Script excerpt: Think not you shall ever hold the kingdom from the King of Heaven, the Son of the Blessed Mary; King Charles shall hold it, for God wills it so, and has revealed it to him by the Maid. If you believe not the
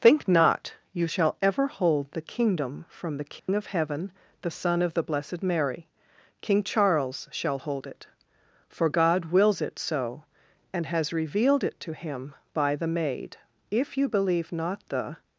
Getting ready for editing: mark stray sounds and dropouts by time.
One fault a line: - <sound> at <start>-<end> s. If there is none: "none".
- dropout at 3.4-3.5 s